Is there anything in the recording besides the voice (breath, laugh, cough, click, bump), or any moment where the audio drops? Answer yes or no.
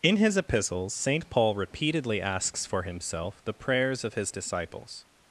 no